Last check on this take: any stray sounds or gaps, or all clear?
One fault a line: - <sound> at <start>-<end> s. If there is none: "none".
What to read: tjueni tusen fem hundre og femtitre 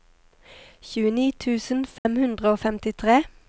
- dropout at 2.0-2.1 s